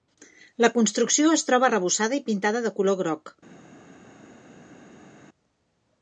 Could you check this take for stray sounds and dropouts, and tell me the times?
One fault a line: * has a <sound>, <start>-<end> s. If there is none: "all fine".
all fine